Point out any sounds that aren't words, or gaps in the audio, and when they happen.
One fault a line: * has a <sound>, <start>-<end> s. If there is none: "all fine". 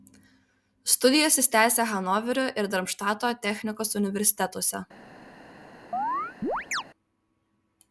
* has a chirp, 5.9-6.8 s